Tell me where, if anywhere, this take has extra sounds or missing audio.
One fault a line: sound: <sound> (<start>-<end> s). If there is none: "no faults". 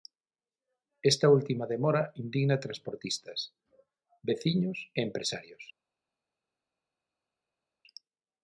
no faults